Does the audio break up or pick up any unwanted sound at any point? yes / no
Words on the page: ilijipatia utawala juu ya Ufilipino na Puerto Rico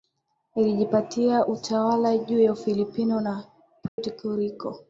yes